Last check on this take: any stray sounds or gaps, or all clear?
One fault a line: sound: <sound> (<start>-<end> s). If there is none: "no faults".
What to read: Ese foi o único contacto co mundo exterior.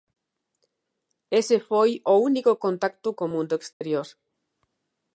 sound: dropout (3.7-3.8 s)